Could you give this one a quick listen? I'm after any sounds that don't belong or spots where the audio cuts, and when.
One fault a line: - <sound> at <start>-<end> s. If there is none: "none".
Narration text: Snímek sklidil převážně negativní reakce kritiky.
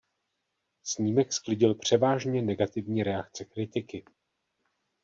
none